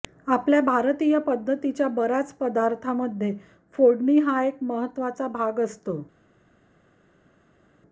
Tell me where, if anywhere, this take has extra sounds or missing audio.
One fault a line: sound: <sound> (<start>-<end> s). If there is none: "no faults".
no faults